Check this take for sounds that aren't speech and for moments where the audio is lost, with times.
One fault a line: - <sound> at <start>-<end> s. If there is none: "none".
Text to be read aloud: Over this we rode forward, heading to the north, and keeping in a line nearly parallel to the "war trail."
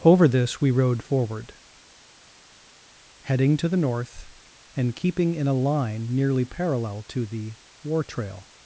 none